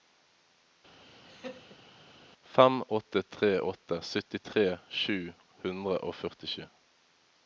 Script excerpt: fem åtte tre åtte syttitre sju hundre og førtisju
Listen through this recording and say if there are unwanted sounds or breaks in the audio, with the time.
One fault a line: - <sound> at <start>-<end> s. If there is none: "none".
- laugh at 1.0-1.8 s